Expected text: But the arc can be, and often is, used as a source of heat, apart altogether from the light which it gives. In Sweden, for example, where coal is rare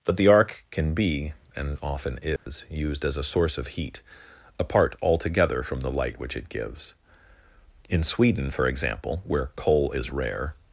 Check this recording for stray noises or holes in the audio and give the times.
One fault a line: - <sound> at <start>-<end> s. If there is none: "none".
- dropout at 2.4-2.5 s